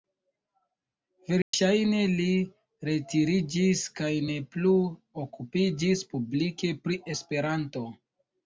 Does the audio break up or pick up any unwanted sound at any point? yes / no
yes